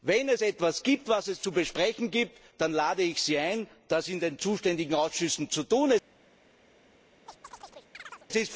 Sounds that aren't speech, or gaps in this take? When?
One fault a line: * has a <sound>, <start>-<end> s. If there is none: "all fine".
* has a chirp, 7.3-8.3 s